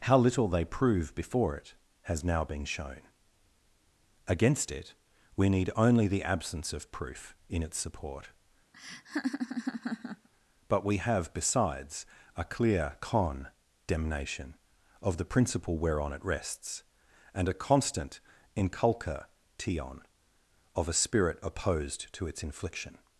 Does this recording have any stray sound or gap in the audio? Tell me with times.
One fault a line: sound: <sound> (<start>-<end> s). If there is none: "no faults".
sound: laugh (8.7-10.3 s)